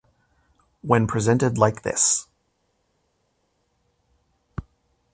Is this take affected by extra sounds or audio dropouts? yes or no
no